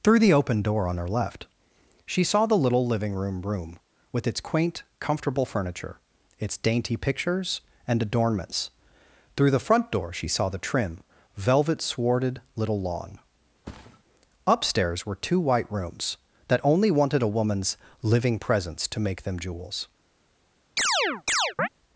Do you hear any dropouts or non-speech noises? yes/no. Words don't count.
yes